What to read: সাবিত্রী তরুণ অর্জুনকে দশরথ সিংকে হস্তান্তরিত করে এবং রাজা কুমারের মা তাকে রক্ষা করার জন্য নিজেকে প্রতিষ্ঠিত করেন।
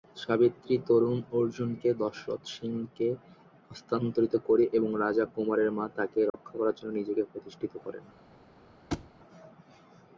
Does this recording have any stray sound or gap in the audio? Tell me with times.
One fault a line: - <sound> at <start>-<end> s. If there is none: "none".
- dropout at 6.3-6.3 s
- thud at 8.9-9.1 s